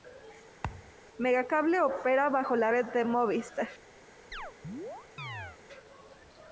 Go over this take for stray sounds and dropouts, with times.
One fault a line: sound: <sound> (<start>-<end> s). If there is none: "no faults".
sound: thud (0.6-0.9 s)
sound: chirp (4.3-5.6 s)